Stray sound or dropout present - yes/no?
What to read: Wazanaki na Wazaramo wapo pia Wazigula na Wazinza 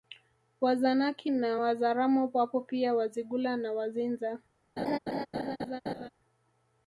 yes